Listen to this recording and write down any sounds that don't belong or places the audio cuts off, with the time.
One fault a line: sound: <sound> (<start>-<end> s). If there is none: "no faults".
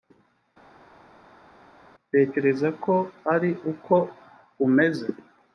no faults